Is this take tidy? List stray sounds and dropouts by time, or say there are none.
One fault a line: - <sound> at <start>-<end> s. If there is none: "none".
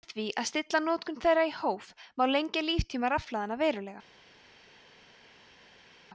none